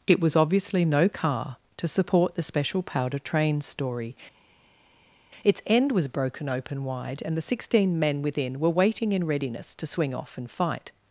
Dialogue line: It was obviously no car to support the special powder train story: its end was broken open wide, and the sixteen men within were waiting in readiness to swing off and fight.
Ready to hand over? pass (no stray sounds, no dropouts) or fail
pass